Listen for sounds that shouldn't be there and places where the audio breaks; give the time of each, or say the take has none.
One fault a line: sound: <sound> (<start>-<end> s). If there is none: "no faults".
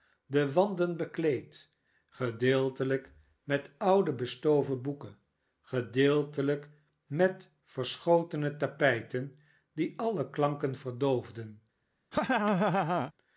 sound: laugh (12.1-13.1 s)